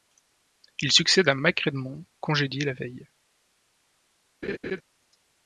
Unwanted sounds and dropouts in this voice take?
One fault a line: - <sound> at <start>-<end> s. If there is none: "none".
- laugh at 4.4-4.8 s